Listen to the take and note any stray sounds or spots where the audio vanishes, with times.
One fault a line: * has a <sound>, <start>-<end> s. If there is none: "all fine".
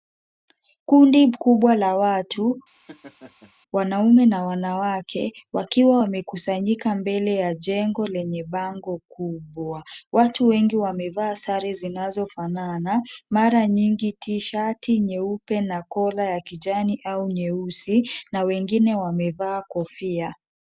* has a laugh, 2.7-3.5 s